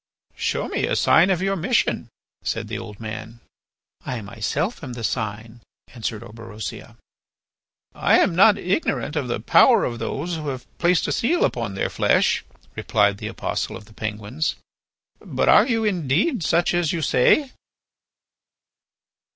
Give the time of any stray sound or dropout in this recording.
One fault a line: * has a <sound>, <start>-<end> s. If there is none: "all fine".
all fine